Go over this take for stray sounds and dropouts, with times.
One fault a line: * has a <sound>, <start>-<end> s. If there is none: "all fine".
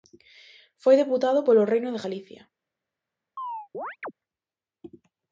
* has a chirp, 3.4-4.1 s